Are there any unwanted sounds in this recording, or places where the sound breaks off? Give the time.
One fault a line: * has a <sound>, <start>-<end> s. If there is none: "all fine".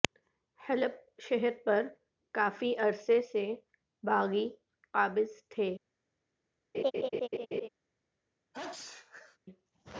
* has a laugh, 6.7-7.7 s
* has a sneeze, 8.5-9.4 s